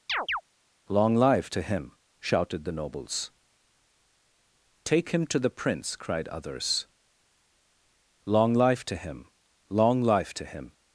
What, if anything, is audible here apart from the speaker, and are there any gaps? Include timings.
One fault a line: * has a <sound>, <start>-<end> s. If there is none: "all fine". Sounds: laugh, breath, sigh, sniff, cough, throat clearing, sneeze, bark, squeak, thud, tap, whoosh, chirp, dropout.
* has a chirp, 0.1-0.4 s